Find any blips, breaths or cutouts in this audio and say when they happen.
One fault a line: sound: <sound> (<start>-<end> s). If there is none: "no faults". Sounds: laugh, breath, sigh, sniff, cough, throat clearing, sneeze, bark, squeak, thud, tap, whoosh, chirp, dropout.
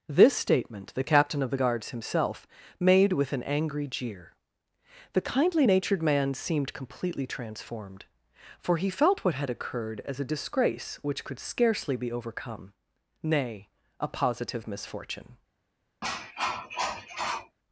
sound: cough (16.0-17.6 s)